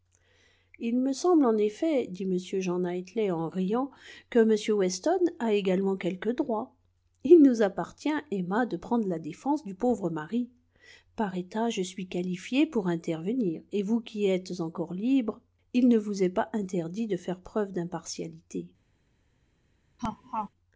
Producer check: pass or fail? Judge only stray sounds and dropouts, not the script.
fail